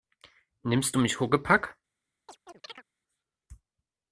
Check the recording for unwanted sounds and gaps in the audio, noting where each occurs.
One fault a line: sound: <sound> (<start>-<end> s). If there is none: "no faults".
sound: chirp (2.3-2.8 s)